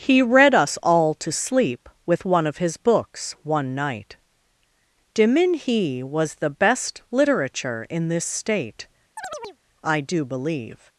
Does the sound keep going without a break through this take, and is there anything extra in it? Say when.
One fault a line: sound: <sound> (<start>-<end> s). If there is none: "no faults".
sound: chirp (9.2-9.6 s)